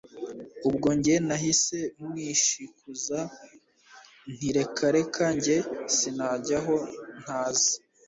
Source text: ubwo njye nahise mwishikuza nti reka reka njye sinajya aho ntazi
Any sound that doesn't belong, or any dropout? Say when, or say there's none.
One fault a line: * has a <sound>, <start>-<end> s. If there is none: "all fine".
all fine